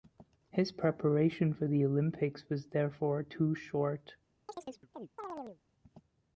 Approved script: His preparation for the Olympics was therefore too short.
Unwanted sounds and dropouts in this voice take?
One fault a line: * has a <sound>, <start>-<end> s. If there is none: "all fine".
* has a chirp, 4.5-5.6 s